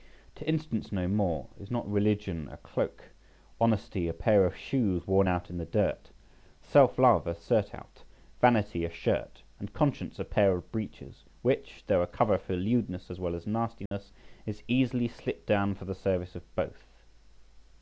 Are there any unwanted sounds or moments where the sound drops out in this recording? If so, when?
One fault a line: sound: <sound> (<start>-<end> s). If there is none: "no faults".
sound: dropout (13.9-13.9 s)